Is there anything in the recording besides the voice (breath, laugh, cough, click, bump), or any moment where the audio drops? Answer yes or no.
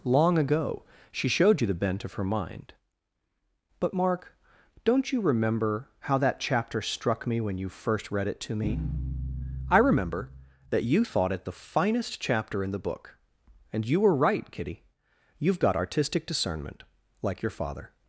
no